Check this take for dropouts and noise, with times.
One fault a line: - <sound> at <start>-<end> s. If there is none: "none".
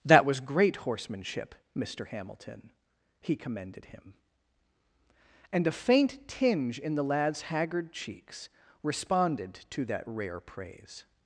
none